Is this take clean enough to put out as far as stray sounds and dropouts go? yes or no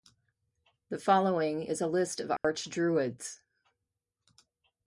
no